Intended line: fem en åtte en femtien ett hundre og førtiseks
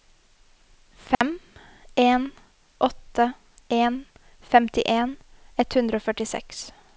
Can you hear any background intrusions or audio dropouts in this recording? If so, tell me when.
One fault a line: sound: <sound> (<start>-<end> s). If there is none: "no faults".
sound: dropout (1.1-1.2 s)